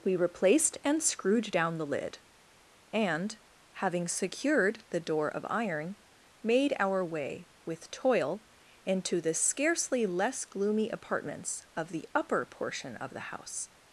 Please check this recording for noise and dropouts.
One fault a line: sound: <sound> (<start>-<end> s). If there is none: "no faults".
no faults